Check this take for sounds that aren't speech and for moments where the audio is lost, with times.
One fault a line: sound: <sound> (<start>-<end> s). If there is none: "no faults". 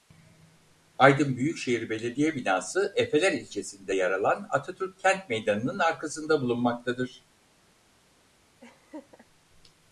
sound: laugh (8.6-9.3 s)